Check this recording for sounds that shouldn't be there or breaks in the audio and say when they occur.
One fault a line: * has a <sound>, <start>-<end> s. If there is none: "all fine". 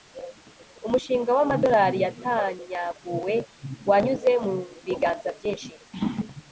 all fine